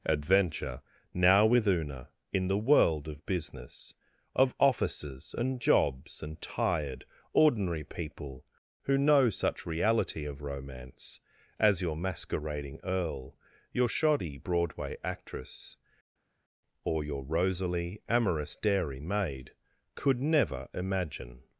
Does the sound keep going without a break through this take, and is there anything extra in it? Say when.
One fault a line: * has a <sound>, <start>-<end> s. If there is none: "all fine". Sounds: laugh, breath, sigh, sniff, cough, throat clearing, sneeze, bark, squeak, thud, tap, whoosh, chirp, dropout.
all fine